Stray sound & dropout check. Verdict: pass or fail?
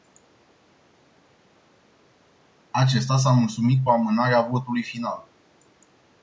pass